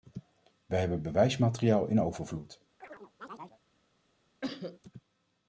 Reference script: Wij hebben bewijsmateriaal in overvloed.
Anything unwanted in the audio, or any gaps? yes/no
yes